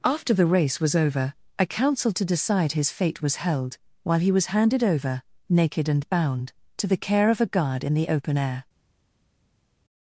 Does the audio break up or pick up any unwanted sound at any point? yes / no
no